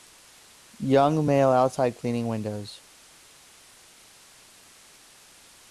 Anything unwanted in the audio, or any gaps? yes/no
no